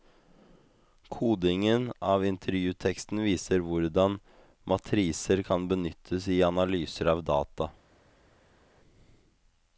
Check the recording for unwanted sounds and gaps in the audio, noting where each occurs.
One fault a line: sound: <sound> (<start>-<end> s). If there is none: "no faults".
no faults